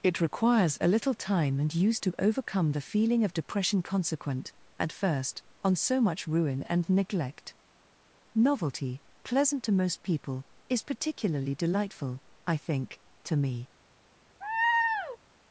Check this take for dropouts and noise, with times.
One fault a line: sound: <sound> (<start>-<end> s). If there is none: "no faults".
sound: laugh (14.4-15.2 s)